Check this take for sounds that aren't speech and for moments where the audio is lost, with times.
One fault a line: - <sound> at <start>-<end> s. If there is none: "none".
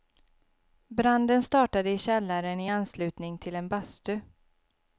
none